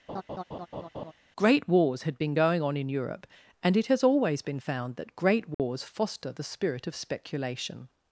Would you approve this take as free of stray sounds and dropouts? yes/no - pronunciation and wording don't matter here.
no